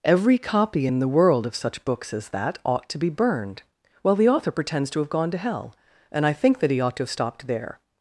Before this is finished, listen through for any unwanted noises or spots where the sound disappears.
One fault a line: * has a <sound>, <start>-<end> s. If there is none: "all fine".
all fine